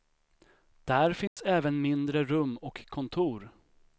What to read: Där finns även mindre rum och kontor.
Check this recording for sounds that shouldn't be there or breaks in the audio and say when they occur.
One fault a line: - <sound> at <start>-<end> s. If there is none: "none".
- dropout at 1.3-1.4 s